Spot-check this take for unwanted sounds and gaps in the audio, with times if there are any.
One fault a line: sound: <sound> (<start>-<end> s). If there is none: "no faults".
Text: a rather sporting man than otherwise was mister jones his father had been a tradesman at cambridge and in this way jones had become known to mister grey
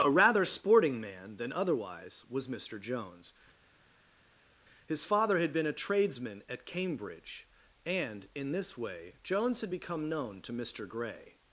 no faults